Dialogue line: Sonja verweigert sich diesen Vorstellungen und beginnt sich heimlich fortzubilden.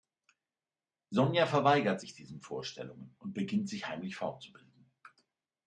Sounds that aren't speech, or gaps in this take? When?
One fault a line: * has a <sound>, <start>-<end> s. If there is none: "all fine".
all fine